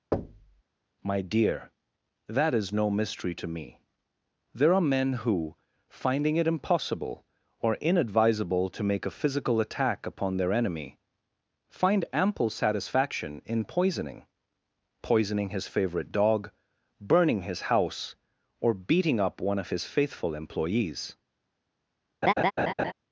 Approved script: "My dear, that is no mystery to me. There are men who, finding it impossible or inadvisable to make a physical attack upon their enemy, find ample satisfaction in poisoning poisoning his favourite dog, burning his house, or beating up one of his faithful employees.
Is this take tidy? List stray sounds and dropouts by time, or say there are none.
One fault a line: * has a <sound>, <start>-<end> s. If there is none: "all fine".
* has a thud, 0.1-0.6 s
* has a laugh, 22.2-22.9 s